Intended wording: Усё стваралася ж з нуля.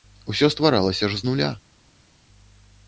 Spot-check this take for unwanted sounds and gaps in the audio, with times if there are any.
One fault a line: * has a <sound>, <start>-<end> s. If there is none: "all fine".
all fine